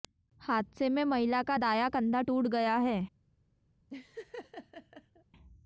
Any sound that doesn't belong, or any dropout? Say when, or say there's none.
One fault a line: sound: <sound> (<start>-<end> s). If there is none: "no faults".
sound: laugh (3.9-5.2 s)